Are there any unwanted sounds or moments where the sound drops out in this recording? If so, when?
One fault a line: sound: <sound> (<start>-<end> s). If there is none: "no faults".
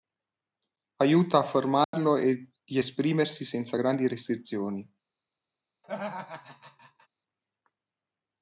sound: dropout (1.8-1.9 s)
sound: laugh (5.8-7.1 s)